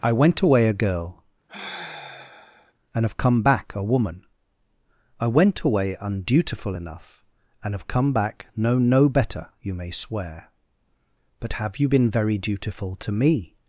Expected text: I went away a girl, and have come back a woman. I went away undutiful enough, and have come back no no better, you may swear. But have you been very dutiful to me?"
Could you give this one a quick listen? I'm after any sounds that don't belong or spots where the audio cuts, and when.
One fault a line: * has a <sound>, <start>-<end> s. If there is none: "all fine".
* has a sigh, 1.5-2.7 s